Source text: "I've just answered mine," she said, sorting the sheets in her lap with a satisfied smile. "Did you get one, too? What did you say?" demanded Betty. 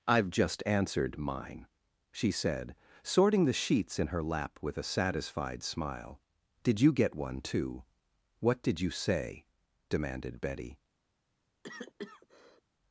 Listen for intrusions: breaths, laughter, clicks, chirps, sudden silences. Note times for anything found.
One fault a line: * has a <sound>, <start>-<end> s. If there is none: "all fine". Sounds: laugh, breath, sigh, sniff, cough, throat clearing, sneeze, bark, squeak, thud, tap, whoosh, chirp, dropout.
* has a cough, 11.6-12.6 s